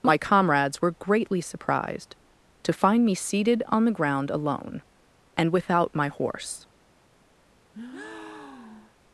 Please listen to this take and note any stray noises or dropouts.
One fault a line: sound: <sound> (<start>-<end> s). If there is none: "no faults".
sound: breath (7.7-9.0 s)